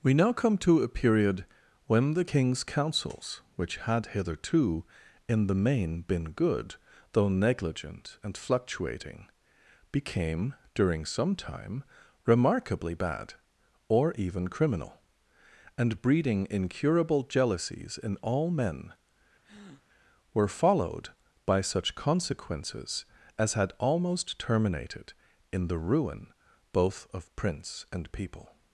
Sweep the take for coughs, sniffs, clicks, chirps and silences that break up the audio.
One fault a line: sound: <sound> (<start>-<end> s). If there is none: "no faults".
sound: breath (19.4-19.8 s)